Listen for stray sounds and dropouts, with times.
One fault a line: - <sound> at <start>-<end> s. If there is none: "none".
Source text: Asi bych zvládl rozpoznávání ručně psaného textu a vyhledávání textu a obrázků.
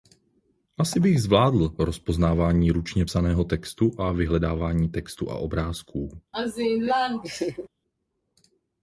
- laugh at 6.3-7.7 s